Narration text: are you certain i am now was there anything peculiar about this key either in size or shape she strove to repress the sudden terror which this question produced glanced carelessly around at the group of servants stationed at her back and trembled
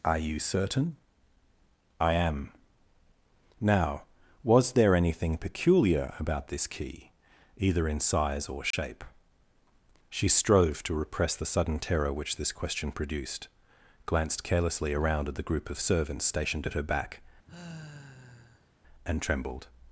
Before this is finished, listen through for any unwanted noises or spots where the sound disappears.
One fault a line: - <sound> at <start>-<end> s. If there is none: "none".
- dropout at 8.7-8.7 s
- sigh at 17.4-18.8 s